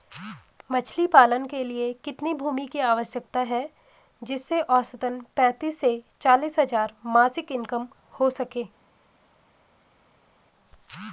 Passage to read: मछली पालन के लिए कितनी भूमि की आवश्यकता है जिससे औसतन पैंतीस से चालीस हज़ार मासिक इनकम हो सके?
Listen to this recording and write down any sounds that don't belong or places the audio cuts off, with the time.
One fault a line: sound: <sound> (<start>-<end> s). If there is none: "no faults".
no faults